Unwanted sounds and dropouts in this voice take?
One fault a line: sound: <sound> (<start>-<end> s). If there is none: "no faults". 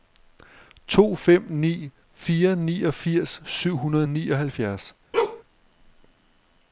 sound: bark (5.1-5.4 s)